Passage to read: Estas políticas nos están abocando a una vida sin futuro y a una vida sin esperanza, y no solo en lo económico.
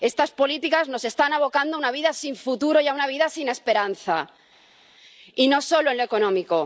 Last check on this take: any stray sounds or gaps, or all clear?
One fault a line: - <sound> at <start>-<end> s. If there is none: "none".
none